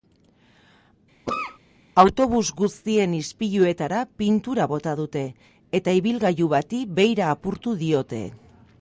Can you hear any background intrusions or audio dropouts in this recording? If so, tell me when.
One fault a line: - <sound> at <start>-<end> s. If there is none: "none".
- cough at 1.3-1.6 s